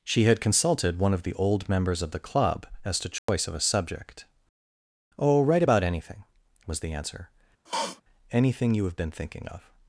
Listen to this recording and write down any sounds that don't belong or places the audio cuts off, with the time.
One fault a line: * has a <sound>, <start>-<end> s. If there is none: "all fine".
* has a dropout, 3.2-3.3 s
* has a sniff, 7.7-8.0 s